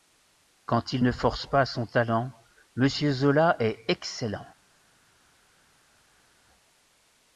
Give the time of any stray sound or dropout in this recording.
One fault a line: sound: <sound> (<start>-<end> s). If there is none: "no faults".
no faults